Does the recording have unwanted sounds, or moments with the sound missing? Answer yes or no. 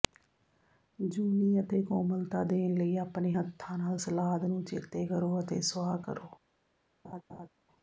yes